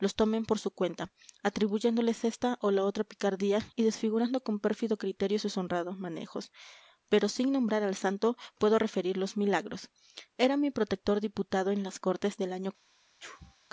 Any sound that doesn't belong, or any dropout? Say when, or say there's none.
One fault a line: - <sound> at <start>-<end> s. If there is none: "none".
- sneeze at 13.2-13.6 s